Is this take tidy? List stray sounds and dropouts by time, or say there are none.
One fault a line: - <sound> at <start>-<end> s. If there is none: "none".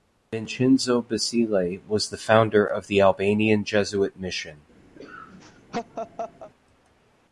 - laugh at 5.0-6.5 s